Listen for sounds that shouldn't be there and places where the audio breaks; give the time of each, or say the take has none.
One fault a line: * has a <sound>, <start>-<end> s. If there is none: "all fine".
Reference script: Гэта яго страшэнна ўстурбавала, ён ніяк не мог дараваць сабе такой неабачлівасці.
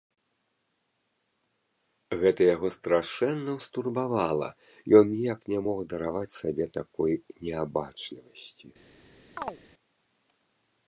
* has a chirp, 9.4-9.6 s